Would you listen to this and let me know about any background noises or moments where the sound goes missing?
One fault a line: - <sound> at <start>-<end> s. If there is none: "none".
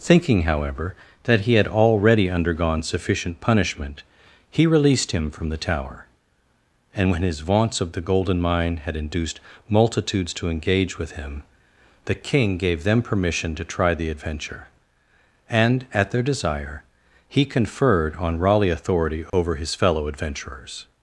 - dropout at 19.3-19.3 s